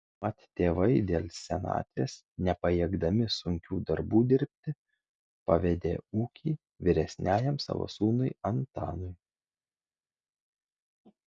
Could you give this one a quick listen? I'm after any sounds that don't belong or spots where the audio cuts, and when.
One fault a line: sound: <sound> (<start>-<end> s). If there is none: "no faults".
no faults